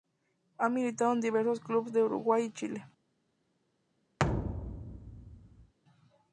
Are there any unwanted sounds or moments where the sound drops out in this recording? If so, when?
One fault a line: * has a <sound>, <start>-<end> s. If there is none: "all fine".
* has a thud, 4.2-5.7 s